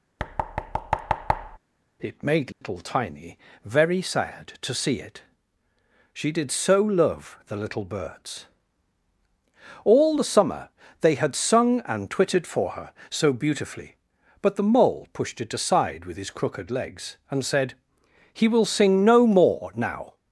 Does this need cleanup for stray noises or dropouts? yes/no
yes